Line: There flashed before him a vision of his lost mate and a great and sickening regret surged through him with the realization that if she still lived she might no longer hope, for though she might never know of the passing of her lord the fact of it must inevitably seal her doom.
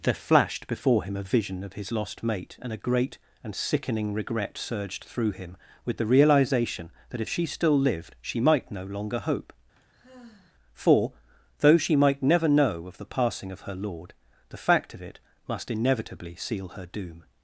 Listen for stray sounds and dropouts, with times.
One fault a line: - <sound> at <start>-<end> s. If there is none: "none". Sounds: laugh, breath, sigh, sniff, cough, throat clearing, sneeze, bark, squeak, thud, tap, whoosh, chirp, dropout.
- sigh at 9.8-10.6 s